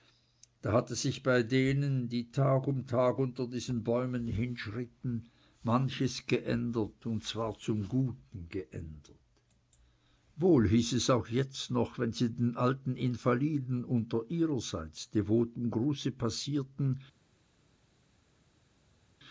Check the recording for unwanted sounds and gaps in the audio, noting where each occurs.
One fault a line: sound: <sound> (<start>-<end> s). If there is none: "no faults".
no faults